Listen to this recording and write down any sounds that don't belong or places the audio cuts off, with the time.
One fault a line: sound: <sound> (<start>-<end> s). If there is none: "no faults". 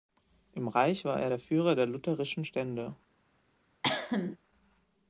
sound: cough (3.8-4.4 s)